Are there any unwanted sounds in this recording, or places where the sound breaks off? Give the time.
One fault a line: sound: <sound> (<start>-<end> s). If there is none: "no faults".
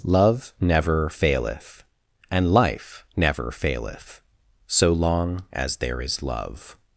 no faults